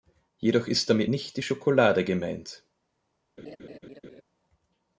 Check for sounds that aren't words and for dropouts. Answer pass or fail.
fail